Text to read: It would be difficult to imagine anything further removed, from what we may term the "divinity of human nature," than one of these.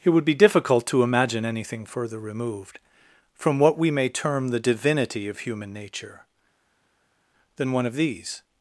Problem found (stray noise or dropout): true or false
false